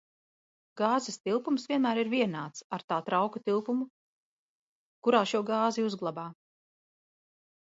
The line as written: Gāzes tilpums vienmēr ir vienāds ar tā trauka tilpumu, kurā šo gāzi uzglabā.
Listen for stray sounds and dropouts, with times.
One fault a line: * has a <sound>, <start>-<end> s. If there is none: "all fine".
all fine